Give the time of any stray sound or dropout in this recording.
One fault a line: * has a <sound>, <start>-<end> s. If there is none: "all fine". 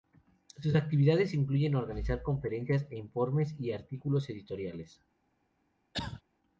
* has a cough, 5.9-6.2 s